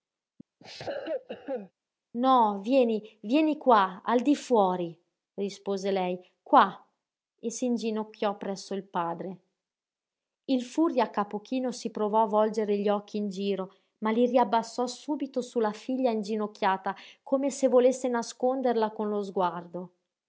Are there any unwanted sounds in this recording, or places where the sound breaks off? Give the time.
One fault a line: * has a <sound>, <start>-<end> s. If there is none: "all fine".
* has a cough, 0.6-1.7 s